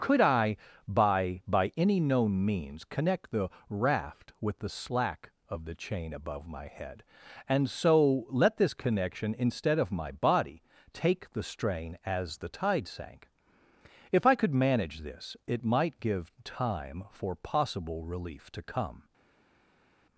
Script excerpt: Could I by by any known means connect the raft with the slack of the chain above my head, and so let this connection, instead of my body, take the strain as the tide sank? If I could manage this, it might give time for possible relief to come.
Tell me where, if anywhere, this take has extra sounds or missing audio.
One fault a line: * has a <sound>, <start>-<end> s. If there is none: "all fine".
all fine